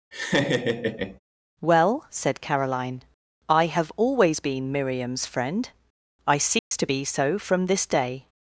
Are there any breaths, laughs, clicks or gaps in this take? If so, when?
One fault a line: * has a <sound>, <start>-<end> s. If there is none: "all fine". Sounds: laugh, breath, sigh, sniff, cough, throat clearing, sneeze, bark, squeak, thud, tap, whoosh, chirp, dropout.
* has a laugh, 0.1-1.2 s
* has a dropout, 6.6-6.7 s